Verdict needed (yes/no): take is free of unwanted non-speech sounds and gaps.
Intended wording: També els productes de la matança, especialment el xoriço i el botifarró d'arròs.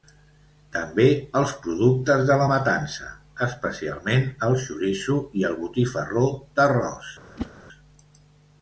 no